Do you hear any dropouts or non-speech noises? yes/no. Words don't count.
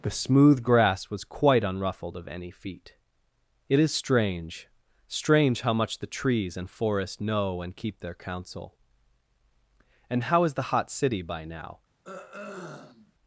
yes